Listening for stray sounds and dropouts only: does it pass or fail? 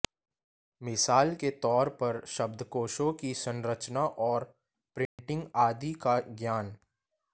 fail